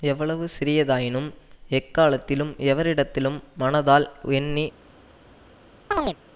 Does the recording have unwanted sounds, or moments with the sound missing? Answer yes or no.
yes